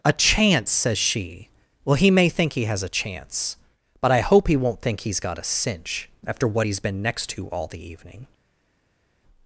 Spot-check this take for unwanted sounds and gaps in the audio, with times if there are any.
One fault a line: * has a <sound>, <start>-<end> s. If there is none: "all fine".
all fine